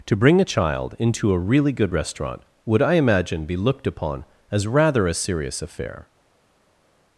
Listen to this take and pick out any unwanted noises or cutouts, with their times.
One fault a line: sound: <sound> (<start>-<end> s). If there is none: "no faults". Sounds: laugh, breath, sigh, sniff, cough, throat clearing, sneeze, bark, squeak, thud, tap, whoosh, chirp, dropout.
no faults